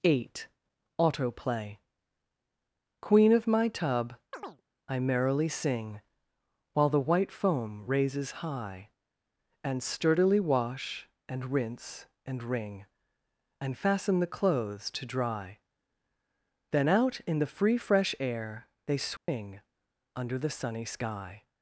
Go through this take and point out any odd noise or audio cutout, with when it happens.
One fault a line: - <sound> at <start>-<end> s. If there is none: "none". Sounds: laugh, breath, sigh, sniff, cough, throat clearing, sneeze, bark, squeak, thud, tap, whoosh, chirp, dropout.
- chirp at 4.3-4.6 s
- dropout at 19.2-19.3 s